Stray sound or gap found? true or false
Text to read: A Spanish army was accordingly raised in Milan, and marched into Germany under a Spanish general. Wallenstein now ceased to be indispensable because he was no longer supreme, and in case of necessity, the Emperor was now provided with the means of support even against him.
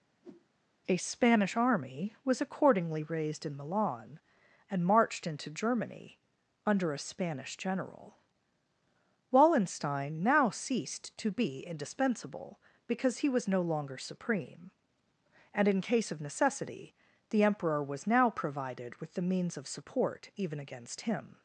true